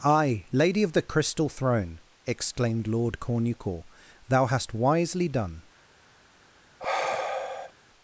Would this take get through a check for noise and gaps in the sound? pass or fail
fail